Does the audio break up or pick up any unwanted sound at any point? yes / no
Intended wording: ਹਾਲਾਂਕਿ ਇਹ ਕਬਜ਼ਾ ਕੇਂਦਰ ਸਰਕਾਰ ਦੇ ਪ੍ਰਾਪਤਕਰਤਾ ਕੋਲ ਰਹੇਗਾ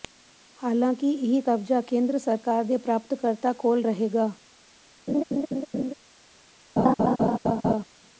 yes